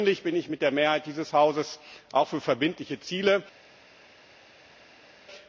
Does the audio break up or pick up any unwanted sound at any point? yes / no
no